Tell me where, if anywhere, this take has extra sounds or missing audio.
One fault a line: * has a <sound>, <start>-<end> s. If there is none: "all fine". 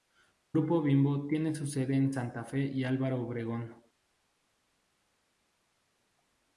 all fine